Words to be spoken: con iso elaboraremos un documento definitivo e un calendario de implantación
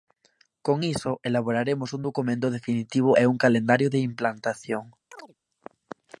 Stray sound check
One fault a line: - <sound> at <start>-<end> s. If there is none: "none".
- chirp at 5.1-5.4 s